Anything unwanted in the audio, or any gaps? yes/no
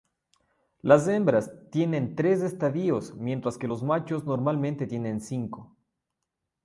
no